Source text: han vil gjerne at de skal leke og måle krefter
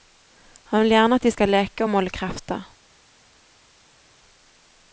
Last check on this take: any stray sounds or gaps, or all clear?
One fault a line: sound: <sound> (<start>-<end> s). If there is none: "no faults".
no faults